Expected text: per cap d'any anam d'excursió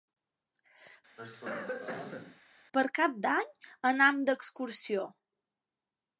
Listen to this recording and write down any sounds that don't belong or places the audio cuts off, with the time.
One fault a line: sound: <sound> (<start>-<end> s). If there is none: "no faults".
sound: cough (1.2-2.4 s)